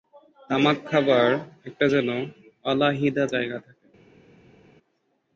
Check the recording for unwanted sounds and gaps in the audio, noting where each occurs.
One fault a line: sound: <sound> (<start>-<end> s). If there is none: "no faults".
no faults